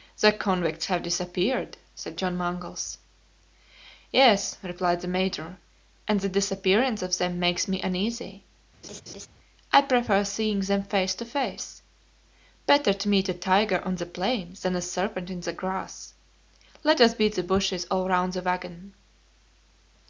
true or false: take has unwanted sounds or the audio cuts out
true